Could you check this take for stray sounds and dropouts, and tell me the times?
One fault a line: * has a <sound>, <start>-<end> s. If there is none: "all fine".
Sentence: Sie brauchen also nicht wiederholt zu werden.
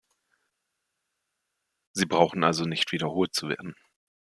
all fine